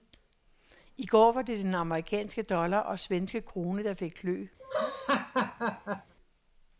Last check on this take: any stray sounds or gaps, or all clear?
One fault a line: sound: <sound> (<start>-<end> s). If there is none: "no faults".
sound: laugh (4.6-6.1 s)